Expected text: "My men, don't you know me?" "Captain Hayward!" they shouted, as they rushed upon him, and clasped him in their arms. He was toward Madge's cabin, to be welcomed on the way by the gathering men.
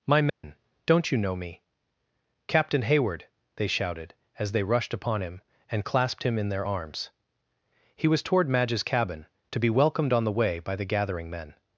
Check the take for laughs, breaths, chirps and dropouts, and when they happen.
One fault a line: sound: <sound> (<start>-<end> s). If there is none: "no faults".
sound: dropout (0.3-0.4 s)